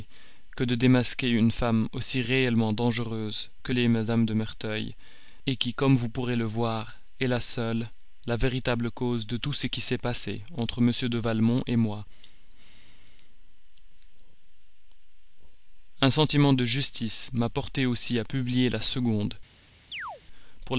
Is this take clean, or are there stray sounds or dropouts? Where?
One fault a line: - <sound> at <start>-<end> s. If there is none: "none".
- chirp at 19.9-20.2 s